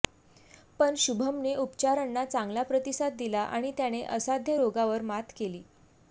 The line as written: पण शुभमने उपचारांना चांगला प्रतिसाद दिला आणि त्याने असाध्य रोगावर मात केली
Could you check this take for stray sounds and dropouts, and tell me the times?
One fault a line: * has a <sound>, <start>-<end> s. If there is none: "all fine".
all fine